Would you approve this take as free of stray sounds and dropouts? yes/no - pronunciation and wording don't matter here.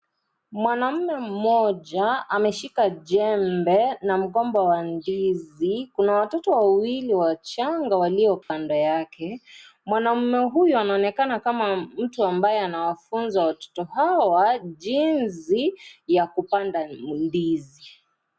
no